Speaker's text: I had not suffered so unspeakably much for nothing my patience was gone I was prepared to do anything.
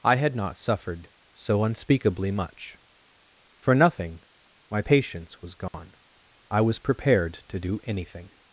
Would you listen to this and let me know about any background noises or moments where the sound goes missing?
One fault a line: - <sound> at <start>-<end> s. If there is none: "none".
- dropout at 5.7-5.7 s